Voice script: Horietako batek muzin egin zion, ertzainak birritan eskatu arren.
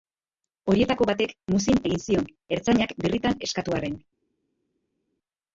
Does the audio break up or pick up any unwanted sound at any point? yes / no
no